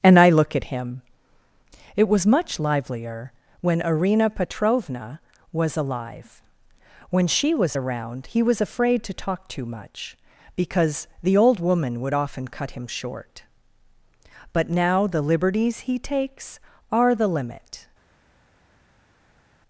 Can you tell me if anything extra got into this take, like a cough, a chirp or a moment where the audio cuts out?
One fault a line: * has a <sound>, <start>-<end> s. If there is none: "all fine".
all fine